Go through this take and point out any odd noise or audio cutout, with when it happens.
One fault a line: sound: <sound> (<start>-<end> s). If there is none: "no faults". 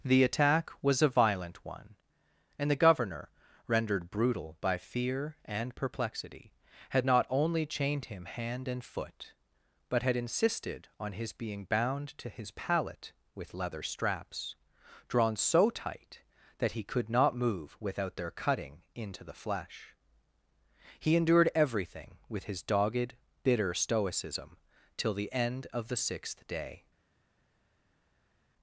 no faults